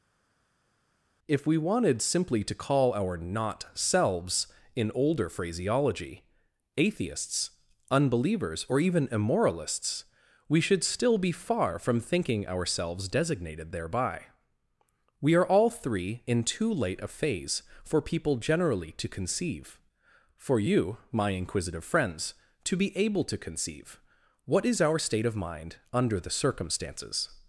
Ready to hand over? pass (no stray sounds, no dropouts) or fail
pass